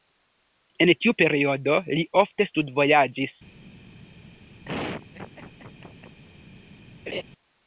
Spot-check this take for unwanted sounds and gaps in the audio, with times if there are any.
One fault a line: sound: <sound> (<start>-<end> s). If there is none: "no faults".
sound: laugh (4.6-6.2 s)
sound: laugh (7.1-7.2 s)